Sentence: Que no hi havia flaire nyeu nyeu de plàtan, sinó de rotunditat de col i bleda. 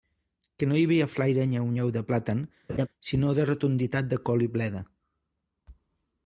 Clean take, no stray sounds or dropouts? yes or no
no